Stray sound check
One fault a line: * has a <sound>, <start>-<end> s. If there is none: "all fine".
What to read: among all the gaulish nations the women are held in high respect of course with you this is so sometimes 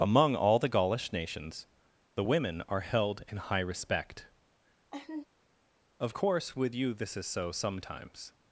* has a laugh, 4.9-5.2 s